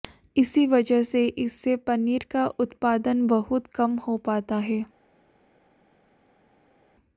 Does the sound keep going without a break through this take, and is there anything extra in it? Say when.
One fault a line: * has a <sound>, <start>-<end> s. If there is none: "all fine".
all fine